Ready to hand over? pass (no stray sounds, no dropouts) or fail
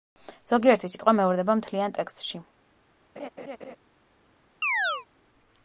fail